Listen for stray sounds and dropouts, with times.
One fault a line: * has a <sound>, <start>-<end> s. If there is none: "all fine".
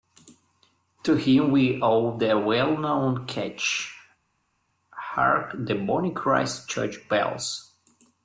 all fine